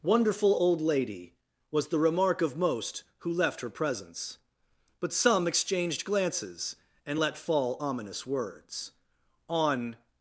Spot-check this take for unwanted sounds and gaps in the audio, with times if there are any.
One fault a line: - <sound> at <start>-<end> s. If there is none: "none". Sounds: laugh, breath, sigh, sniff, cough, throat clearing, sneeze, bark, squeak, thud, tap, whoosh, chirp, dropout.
none